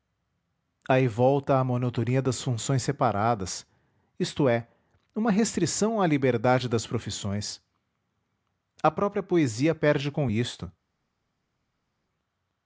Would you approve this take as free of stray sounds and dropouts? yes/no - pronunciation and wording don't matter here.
yes